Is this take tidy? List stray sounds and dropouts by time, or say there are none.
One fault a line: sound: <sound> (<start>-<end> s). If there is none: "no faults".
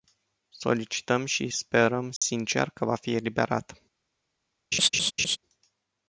sound: dropout (2.2-2.2 s)
sound: laugh (4.7-5.4 s)